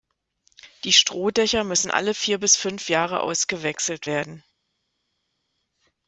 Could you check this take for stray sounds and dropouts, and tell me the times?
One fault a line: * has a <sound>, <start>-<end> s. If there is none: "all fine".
all fine